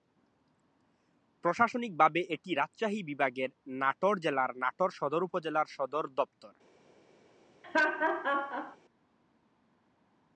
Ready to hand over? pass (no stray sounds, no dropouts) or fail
fail